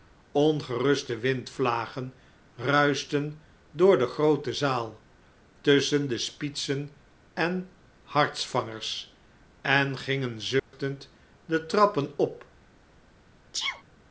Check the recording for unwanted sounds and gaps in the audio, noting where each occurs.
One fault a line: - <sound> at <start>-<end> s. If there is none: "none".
- dropout at 10.6-10.7 s
- sneeze at 13.5-13.8 s